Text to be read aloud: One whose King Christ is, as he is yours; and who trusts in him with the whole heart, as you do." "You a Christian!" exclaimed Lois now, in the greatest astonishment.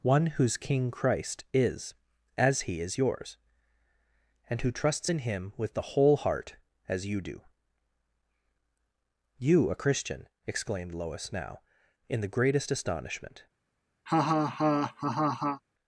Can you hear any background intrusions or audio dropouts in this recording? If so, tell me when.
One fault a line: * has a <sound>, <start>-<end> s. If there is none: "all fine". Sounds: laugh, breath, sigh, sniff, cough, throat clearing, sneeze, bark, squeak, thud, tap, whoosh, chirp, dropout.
* has a laugh, 14.1-15.6 s